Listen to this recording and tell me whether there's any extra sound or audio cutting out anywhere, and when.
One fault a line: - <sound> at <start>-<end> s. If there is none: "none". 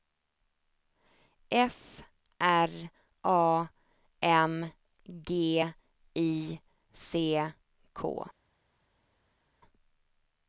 none